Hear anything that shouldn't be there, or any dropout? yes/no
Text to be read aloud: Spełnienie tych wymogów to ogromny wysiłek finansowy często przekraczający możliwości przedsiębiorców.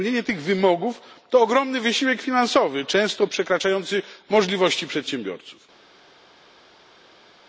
no